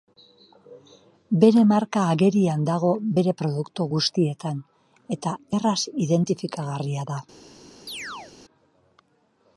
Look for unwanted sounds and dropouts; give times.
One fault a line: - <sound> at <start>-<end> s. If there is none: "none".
- chirp at 7.9-8.3 s